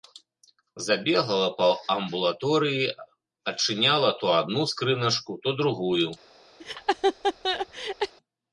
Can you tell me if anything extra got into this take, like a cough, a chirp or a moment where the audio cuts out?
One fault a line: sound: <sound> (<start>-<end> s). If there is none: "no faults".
sound: laugh (6.6-8.1 s)